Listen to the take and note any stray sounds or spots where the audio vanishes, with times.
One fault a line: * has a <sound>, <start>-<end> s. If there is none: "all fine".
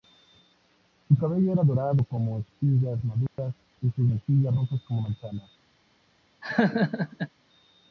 * has a dropout, 3.3-3.4 s
* has a laugh, 6.4-7.3 s